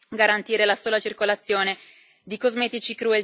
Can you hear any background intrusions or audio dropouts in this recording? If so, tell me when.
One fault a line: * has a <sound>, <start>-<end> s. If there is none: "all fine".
all fine